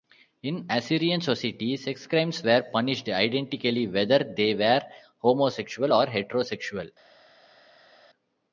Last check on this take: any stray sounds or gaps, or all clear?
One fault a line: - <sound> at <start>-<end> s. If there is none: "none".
none